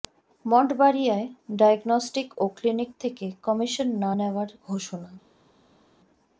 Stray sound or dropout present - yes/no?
no